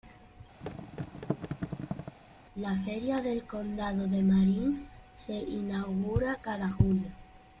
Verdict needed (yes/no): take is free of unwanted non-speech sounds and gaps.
no